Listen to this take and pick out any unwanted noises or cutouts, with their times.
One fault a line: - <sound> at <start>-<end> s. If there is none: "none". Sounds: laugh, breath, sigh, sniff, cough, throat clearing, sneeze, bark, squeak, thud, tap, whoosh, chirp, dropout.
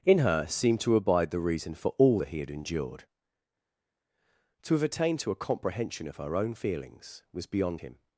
none